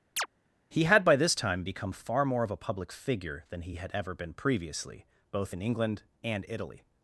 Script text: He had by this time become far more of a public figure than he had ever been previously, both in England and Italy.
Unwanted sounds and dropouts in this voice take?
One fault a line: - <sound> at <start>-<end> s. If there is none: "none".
- chirp at 0.2-0.3 s